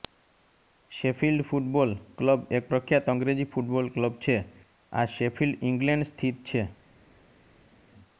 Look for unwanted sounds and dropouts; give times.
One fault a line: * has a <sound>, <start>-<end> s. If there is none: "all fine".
all fine